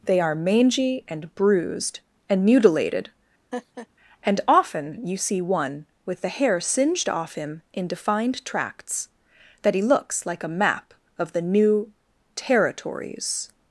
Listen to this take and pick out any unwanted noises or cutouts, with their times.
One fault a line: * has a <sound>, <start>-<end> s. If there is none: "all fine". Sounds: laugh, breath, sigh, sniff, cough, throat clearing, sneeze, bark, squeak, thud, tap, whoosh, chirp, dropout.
* has a laugh, 3.5-3.9 s